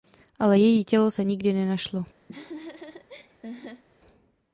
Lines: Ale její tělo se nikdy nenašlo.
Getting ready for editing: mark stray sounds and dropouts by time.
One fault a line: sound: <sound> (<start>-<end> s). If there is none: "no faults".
sound: laugh (2.3-3.8 s)